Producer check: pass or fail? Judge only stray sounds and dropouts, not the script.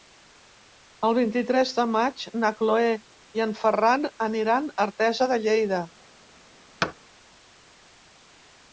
fail